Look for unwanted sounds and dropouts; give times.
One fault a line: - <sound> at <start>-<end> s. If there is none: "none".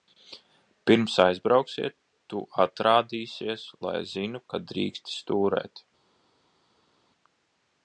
none